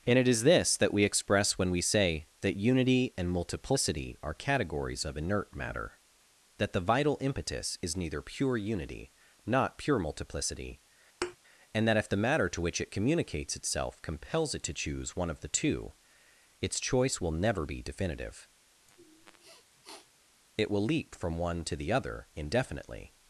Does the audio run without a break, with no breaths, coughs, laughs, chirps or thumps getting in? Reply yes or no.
no